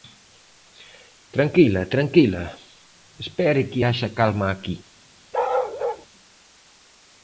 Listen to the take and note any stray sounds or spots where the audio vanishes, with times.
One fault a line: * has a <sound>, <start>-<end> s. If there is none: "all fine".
* has a bark, 5.3-6.1 s